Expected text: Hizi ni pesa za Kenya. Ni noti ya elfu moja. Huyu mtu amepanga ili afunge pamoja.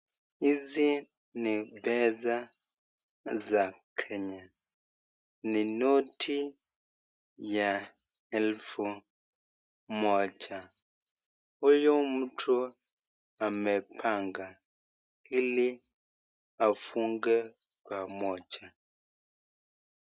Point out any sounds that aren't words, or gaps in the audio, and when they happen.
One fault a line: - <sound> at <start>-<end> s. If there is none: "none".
none